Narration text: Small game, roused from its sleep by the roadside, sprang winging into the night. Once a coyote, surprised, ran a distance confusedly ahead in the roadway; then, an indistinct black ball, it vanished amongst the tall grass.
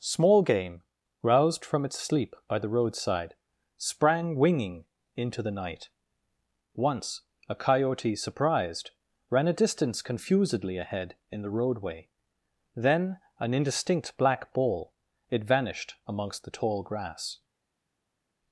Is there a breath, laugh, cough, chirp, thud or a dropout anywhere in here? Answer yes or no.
no